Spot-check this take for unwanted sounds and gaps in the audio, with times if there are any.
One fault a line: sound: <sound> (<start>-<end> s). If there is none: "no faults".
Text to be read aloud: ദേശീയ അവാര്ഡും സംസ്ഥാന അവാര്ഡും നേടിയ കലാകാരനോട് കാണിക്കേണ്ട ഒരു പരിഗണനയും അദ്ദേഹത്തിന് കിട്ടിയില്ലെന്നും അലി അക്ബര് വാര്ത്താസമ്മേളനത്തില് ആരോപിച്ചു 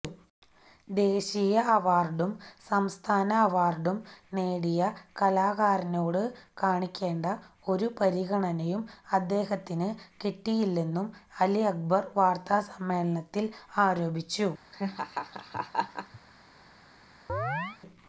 sound: laugh (14.7-16.2 s)
sound: chirp (17.3-17.8 s)